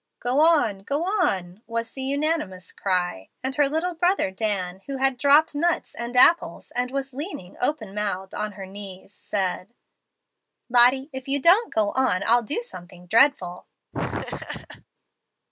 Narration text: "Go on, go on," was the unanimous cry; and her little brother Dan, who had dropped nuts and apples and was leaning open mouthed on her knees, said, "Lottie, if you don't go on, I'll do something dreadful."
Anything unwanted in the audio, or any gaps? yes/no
yes